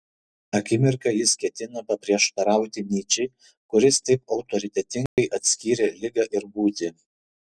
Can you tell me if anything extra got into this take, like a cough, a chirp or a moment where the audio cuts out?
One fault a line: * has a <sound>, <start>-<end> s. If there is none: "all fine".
* has a dropout, 5.1-5.2 s